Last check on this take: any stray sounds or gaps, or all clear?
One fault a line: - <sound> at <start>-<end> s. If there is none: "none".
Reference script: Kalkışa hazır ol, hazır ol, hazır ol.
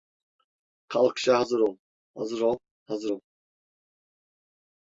none